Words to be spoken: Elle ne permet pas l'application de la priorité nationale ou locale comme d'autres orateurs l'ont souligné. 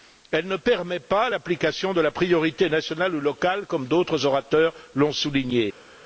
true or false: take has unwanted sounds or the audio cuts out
false